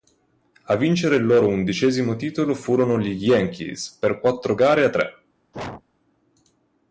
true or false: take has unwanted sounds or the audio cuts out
true